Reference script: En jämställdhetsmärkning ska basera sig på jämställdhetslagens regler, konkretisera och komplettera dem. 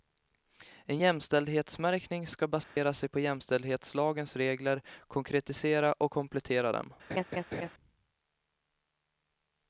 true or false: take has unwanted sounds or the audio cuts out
true